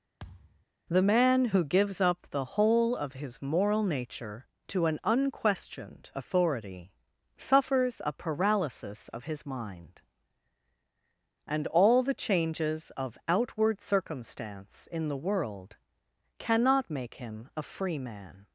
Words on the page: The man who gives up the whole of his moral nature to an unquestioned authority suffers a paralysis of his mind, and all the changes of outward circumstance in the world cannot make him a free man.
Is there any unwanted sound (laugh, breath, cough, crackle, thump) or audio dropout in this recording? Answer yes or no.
yes